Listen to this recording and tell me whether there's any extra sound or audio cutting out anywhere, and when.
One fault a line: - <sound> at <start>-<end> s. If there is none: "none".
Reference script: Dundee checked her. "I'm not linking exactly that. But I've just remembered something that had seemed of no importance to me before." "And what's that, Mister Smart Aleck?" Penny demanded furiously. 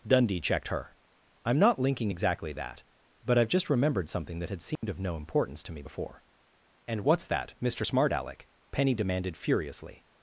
- dropout at 4.8-4.8 s